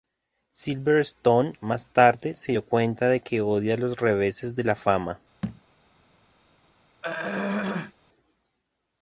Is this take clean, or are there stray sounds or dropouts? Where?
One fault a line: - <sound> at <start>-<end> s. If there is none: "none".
- thud at 5.4-5.6 s
- throat clearing at 7.0-7.9 s